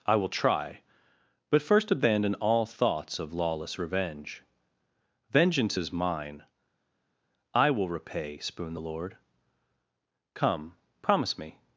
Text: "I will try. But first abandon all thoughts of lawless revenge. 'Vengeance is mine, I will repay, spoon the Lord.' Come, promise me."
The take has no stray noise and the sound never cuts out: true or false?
true